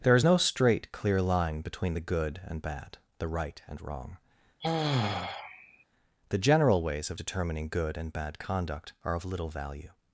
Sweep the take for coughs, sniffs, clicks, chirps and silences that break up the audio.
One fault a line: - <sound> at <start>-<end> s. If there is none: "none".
- sigh at 4.6-5.8 s